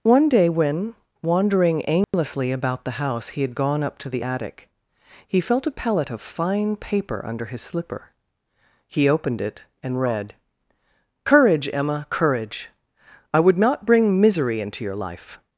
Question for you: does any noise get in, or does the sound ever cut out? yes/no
yes